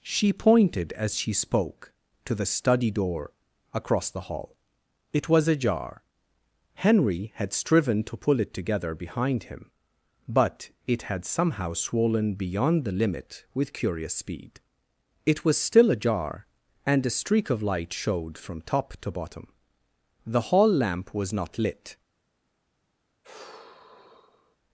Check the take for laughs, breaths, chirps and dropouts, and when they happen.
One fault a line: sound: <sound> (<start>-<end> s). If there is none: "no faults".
sound: sigh (23.2-24.6 s)